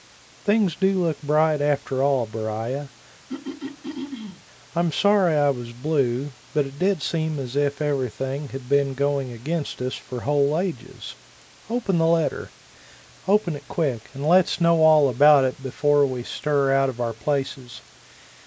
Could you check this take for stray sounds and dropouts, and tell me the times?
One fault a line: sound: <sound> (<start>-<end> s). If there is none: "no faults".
sound: throat clearing (3.3-4.4 s)